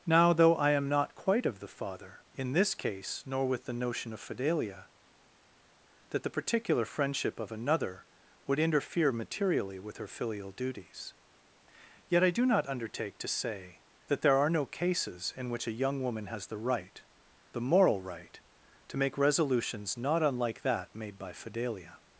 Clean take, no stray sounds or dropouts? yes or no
yes